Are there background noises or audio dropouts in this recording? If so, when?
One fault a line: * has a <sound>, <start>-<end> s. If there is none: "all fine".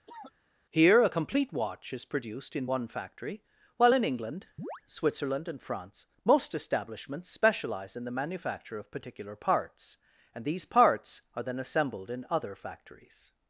* has a cough, 0.1-0.3 s
* has a chirp, 4.6-4.8 s